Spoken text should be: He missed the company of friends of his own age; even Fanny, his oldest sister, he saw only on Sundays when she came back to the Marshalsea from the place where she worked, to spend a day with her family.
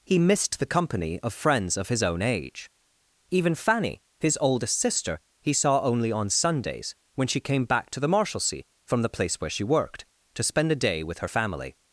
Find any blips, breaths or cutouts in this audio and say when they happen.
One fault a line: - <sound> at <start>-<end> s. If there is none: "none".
none